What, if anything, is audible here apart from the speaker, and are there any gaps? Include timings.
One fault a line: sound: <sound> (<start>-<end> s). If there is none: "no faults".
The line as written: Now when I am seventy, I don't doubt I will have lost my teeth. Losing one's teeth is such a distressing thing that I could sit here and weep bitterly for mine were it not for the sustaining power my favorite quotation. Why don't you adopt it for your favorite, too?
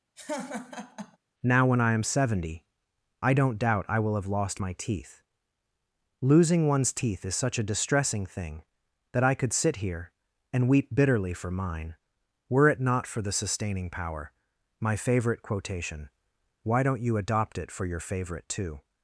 sound: laugh (0.2-1.2 s)